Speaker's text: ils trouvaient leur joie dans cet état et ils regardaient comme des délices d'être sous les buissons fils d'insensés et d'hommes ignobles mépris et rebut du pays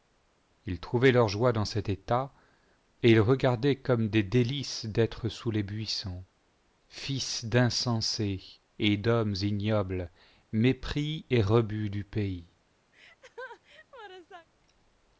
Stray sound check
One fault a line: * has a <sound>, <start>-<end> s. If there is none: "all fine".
* has a laugh, 12.9-14.5 s